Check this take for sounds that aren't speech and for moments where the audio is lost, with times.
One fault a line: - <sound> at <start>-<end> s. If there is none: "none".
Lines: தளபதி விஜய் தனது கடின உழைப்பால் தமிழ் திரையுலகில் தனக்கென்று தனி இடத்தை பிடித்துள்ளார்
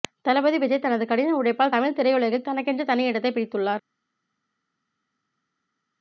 none